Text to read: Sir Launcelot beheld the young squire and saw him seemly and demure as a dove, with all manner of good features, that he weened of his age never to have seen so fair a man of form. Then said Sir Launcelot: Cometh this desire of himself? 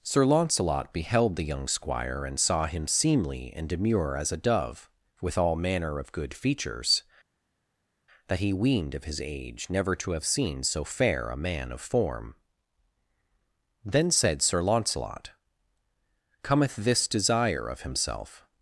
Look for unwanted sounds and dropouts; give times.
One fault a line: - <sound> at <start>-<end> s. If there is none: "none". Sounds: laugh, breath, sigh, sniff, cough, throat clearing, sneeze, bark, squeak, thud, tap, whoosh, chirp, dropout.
none